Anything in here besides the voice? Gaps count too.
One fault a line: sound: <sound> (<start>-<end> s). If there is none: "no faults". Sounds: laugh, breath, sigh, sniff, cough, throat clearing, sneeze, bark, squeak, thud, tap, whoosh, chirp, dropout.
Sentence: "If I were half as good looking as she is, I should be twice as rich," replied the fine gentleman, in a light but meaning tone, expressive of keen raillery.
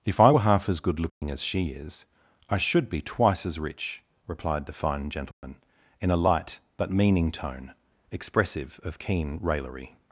sound: dropout (1.1-1.2 s)
sound: dropout (5.3-5.4 s)